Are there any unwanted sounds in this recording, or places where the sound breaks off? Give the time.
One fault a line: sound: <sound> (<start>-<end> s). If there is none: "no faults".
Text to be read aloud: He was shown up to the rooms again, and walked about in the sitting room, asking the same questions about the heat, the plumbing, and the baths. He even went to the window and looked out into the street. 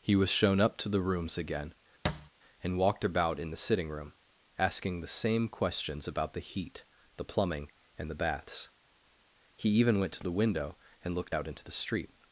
sound: thud (2.0-2.3 s)